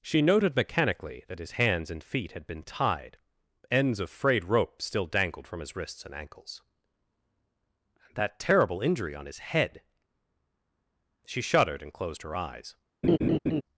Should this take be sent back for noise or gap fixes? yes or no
yes